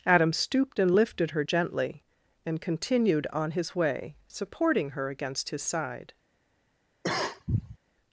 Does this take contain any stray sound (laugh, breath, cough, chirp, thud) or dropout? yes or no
yes